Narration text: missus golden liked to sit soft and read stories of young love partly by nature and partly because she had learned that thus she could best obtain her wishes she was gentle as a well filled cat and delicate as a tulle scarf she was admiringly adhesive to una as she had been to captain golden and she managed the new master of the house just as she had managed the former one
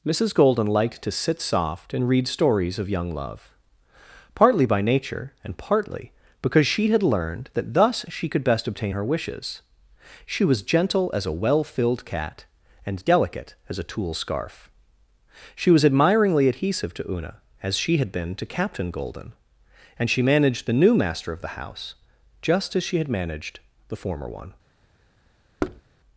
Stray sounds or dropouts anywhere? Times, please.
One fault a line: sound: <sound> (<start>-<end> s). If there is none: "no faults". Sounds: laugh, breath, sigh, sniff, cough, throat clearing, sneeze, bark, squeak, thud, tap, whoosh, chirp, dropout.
sound: thud (25.6-25.8 s)